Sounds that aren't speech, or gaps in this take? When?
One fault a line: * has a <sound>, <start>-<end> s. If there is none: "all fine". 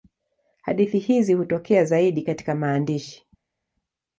all fine